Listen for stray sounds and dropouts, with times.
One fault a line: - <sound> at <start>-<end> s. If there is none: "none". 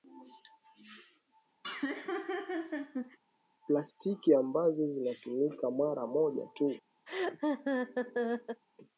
- laugh at 1.6-3.2 s
- laugh at 7.1-8.6 s